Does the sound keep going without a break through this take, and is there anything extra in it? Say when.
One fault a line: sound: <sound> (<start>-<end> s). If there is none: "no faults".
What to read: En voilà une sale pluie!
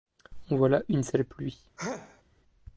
sound: sneeze (1.8-2.2 s)